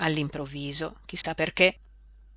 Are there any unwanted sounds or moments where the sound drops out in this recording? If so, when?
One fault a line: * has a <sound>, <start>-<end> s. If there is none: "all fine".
* has a dropout, 1.2-1.2 s